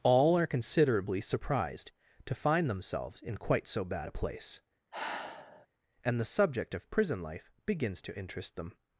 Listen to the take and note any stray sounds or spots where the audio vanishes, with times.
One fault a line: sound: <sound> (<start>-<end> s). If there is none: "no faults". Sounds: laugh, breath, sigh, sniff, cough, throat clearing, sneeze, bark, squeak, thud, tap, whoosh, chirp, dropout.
sound: sigh (4.9-5.7 s)